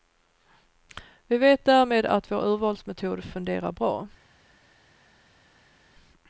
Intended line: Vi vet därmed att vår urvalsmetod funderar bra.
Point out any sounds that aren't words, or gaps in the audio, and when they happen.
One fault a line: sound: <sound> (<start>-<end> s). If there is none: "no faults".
no faults